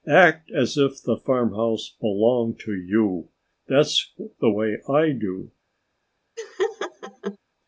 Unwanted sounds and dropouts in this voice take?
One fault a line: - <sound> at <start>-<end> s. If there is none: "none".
- laugh at 6.4-7.4 s